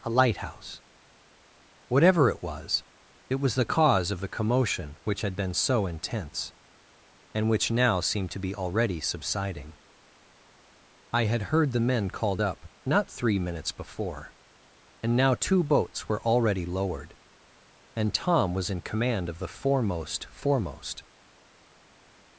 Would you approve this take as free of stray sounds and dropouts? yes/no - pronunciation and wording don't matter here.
yes